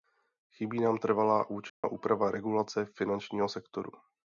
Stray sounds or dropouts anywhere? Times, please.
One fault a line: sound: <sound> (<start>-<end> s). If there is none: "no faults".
sound: dropout (1.7-1.8 s)